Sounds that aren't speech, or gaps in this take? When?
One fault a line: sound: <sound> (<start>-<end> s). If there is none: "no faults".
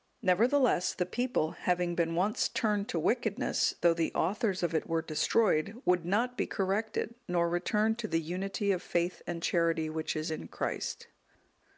no faults